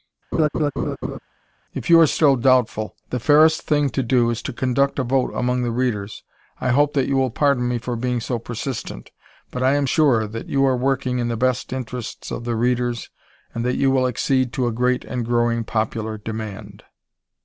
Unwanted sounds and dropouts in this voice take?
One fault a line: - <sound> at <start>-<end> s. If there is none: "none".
- laugh at 0.3-1.2 s